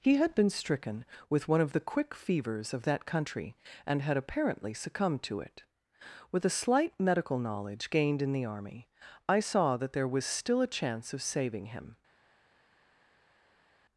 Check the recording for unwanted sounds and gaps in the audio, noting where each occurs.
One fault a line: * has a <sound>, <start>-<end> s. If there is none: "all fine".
all fine